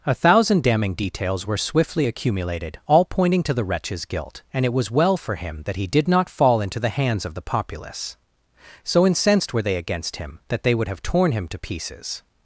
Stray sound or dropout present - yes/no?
no